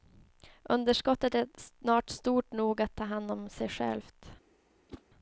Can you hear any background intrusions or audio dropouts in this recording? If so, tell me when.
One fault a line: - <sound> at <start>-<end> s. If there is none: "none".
- whoosh at 4.9-5.0 s